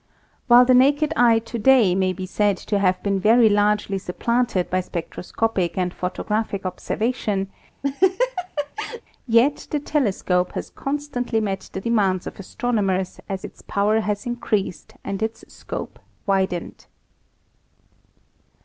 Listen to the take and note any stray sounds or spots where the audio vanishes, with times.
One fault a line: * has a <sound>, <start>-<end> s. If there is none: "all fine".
* has a laugh, 7.8-9.0 s